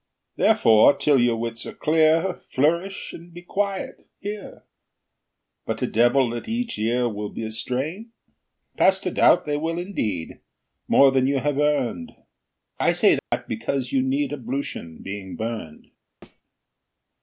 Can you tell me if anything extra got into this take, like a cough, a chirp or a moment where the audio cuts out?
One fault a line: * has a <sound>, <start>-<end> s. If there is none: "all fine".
* has a dropout, 13.2-13.3 s
* has a thud, 16.2-16.4 s